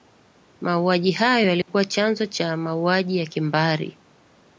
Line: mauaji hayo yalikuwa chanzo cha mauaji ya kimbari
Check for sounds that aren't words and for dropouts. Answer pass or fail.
fail